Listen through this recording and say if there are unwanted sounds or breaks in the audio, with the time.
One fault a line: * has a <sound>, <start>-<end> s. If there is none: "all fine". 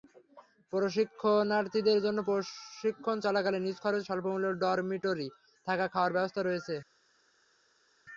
all fine